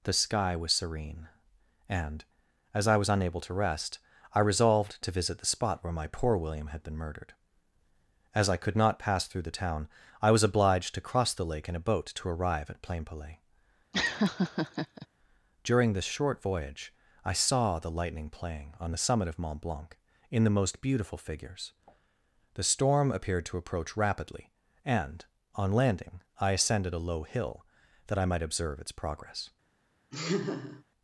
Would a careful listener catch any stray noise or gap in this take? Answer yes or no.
yes